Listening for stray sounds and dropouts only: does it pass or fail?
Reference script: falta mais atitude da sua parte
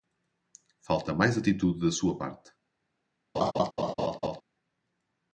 fail